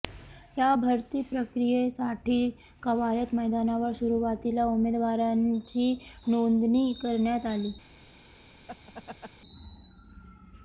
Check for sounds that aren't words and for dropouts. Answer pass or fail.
fail